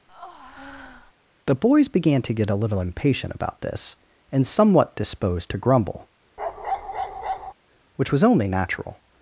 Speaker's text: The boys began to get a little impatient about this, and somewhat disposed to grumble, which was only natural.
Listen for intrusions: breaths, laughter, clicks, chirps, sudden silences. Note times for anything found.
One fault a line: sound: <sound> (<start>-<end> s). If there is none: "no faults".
sound: breath (0.1-1.1 s)
sound: bark (6.4-7.5 s)